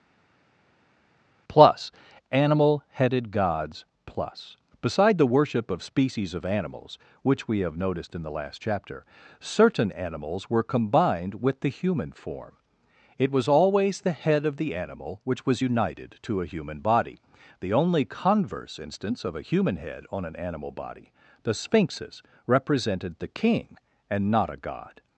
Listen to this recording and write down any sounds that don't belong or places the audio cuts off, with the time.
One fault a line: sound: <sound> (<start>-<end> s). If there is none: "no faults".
no faults